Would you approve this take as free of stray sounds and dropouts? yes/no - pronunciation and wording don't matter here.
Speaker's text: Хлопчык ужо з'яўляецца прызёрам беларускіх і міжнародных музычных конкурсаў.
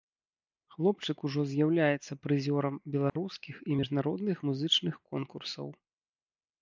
no